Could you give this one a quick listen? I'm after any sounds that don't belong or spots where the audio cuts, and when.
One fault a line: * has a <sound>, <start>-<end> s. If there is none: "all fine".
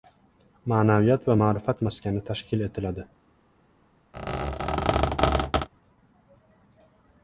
* has a squeak, 4.1-5.7 s